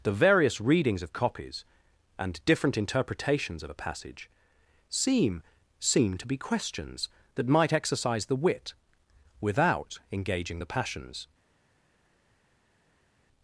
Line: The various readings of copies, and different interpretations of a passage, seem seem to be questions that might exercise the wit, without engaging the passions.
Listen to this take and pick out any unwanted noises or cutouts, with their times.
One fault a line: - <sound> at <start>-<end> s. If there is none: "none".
none